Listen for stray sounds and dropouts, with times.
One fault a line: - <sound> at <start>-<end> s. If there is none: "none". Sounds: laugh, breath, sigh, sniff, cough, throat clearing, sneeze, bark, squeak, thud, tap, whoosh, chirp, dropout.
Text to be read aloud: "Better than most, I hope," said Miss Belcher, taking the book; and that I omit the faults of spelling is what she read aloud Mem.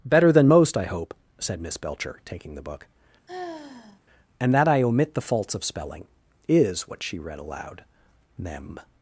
- sigh at 3.3-4.0 s